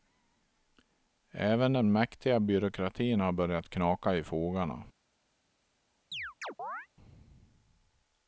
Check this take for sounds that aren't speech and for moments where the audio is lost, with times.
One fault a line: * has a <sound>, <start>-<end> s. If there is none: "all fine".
* has a chirp, 6.1-6.9 s